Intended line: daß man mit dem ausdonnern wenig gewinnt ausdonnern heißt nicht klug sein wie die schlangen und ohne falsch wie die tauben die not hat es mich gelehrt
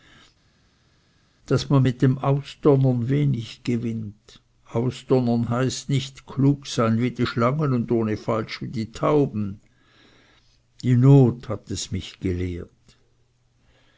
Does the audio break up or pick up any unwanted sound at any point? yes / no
no